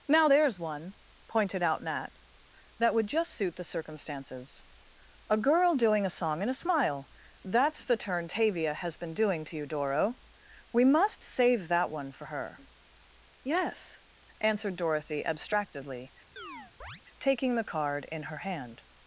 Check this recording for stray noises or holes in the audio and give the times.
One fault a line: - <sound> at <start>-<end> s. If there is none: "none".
- chirp at 16.4-17.0 s